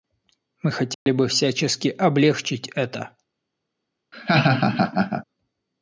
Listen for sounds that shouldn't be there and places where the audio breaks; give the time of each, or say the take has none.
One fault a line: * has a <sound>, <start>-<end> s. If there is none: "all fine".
* has a dropout, 0.9-1.1 s
* has a laugh, 4.1-5.3 s